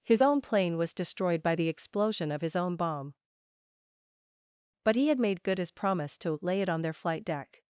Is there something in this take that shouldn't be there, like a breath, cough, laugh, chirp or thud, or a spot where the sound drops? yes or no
no